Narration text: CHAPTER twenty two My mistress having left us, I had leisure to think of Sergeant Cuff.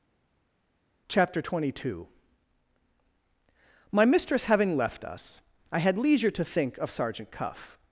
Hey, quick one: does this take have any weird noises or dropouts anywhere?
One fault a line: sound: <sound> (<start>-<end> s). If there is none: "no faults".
no faults